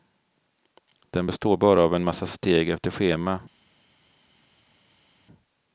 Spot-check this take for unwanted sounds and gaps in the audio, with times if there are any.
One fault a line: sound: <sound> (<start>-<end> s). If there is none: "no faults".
no faults